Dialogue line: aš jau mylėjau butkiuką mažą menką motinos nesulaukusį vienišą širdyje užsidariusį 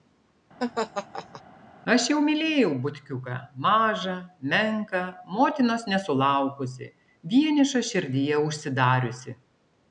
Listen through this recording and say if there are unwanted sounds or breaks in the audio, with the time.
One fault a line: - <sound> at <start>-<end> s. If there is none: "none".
- laugh at 0.6-1.4 s